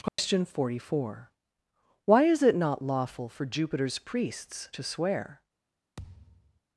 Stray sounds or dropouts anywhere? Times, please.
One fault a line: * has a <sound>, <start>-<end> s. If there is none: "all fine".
* has a dropout, 0.1-0.2 s
* has a thud, 6.0-6.6 s